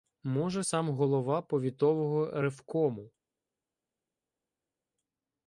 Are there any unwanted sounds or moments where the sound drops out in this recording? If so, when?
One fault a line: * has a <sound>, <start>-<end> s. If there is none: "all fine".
all fine